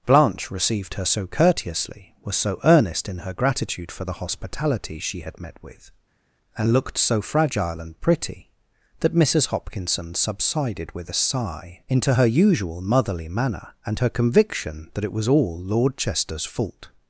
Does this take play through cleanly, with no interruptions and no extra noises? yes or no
yes